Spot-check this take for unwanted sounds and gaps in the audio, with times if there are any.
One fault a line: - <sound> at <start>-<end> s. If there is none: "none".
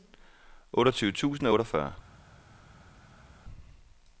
none